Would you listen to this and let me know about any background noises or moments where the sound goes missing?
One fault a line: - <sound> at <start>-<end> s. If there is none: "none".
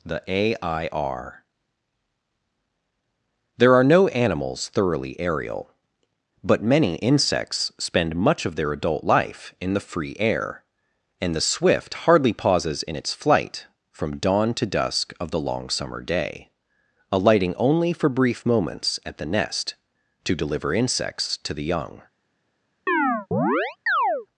- chirp at 22.9-24.3 s